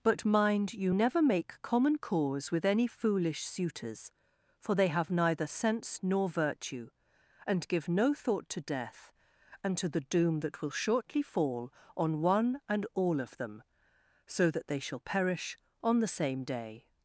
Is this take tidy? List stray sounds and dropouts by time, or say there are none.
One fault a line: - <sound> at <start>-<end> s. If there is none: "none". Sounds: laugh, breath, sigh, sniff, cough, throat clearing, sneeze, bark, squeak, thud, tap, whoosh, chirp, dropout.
none